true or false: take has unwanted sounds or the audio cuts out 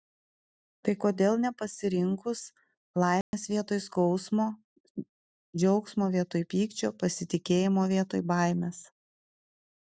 true